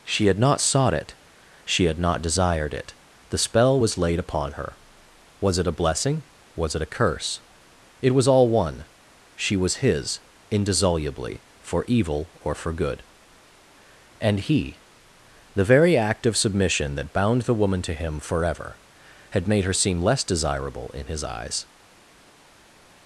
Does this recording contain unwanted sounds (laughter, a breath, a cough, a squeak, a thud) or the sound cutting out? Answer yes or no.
no